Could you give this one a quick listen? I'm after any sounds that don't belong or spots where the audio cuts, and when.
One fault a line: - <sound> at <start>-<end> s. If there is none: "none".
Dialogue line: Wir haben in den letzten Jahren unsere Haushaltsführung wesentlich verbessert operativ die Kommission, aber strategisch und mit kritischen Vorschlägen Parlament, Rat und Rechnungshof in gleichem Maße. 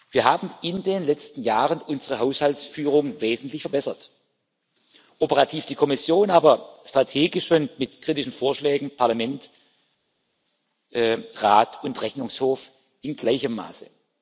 none